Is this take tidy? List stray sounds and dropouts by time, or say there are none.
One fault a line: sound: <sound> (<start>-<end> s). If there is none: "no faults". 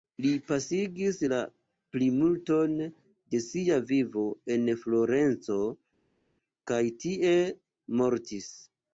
no faults